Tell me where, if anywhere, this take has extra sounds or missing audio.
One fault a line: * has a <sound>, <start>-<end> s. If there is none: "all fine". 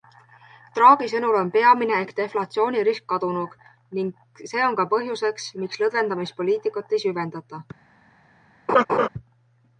* has a laugh, 8.7-9.1 s